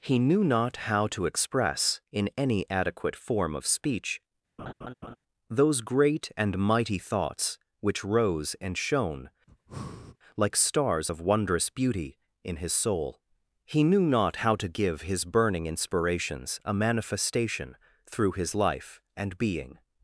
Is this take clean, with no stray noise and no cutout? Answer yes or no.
no